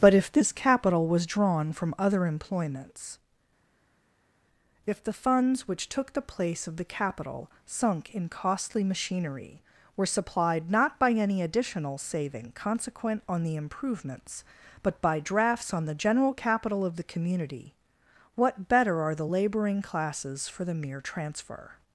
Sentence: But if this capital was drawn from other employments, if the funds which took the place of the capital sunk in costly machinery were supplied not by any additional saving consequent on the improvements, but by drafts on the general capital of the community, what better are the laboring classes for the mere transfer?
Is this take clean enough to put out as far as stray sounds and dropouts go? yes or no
yes